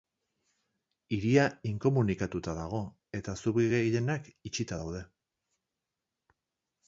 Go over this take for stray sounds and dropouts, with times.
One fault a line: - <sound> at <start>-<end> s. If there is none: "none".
none